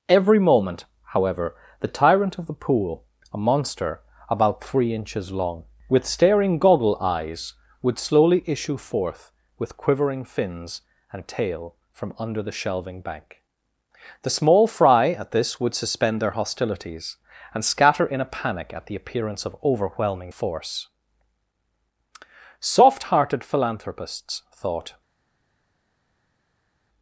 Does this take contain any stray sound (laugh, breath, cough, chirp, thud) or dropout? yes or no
no